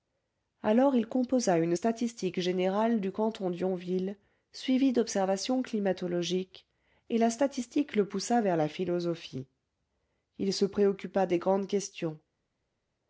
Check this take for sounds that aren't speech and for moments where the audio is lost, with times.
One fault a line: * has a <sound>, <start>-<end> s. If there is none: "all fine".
all fine